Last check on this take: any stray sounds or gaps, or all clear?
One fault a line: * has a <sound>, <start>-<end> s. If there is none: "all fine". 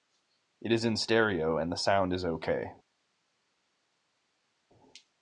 all fine